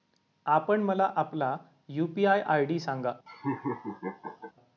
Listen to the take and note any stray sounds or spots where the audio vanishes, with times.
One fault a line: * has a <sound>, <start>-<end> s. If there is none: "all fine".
* has a laugh, 3.3-4.5 s